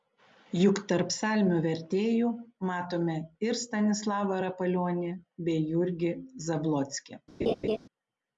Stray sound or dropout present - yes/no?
yes